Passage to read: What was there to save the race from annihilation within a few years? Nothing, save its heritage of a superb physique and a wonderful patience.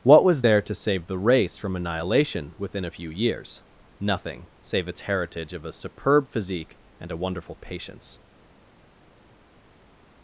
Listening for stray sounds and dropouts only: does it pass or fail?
pass